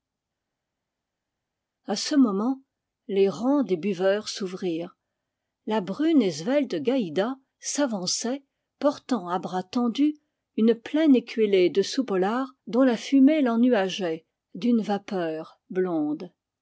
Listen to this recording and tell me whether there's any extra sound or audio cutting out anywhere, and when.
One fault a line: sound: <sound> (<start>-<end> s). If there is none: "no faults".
no faults